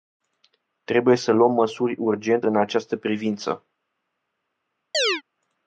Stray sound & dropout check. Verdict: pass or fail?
fail